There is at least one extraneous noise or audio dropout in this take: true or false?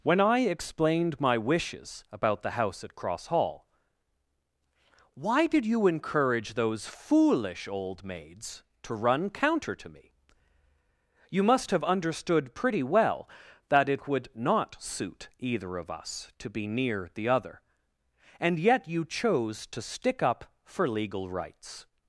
false